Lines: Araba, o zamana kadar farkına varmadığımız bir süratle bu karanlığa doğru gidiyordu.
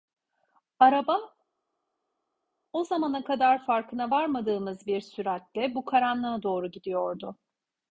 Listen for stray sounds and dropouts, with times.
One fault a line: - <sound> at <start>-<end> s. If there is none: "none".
none